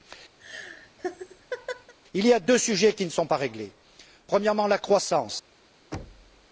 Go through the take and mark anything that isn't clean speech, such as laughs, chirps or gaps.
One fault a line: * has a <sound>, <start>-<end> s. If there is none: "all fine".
* has a laugh, 0.4-1.9 s
* has a thud, 5.9-6.5 s